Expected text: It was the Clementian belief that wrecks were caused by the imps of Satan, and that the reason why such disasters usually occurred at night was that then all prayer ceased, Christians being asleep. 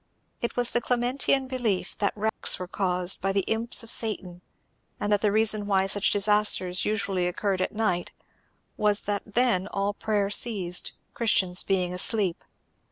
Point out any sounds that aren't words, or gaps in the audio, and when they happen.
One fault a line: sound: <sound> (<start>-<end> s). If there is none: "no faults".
sound: dropout (2.3-2.4 s)